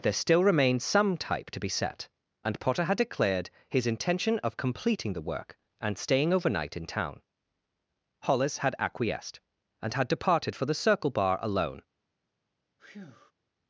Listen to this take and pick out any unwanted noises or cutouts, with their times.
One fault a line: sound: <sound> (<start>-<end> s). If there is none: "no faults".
sound: breath (12.8-13.3 s)